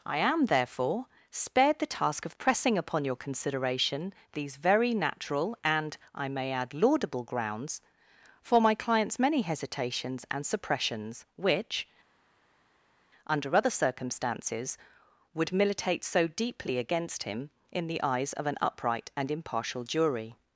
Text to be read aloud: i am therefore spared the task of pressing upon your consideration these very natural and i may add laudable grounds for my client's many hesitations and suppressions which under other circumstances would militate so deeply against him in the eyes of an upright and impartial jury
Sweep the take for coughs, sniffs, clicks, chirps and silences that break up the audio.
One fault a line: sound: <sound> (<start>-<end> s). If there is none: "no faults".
no faults